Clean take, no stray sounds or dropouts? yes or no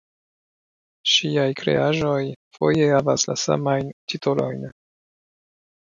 yes